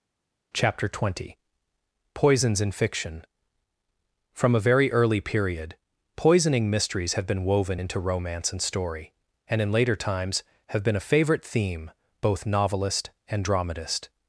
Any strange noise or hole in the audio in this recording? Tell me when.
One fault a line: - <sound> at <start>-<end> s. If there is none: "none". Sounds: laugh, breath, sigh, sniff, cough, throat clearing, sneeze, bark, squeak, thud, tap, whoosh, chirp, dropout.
none